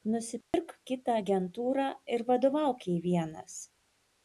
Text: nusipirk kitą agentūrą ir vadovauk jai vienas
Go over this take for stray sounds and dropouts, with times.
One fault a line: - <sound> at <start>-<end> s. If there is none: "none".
- dropout at 0.4-0.5 s